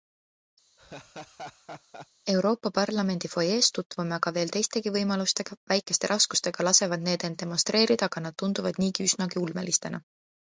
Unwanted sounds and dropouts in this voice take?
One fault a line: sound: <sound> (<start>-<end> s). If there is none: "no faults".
sound: laugh (0.8-2.1 s)